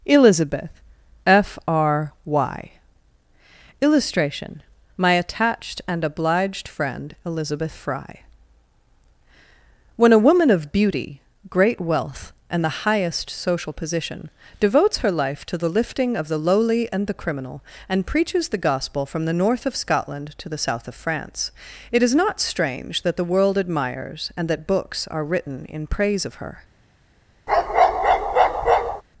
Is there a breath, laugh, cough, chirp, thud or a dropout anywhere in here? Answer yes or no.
yes